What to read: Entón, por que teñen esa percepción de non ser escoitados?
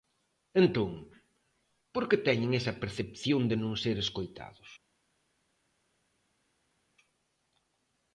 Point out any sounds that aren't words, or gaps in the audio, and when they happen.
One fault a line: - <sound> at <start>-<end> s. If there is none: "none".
none